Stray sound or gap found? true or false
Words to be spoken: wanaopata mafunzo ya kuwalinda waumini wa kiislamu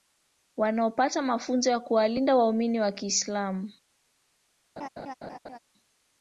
true